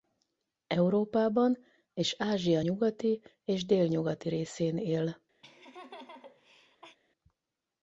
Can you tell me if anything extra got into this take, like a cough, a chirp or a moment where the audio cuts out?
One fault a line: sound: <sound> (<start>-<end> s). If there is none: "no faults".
sound: laugh (5.4-7.0 s)